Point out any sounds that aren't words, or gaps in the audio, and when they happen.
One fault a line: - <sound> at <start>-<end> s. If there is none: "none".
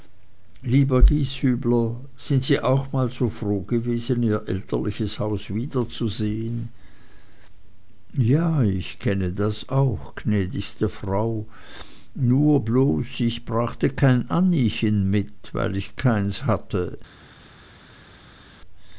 none